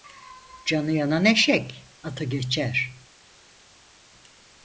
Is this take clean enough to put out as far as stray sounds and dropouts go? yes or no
yes